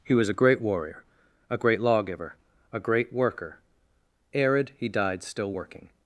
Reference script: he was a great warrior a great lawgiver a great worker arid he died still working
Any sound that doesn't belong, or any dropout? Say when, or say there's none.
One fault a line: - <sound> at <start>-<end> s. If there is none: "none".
none